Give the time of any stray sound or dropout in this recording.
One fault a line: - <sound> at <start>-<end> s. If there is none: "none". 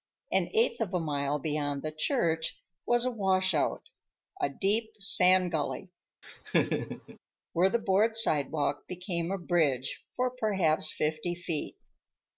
- laugh at 6.2-7.2 s